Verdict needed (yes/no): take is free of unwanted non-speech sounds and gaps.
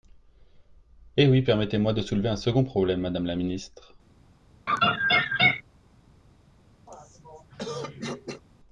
no